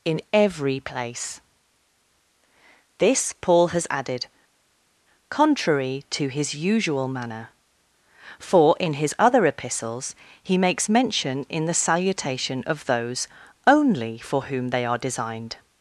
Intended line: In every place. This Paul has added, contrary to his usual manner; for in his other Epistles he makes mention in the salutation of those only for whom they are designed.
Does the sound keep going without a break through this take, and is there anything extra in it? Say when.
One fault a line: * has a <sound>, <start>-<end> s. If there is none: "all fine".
all fine